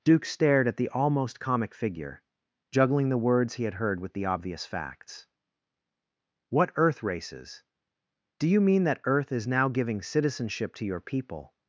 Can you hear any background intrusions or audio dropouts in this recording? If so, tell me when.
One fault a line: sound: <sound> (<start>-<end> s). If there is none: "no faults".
no faults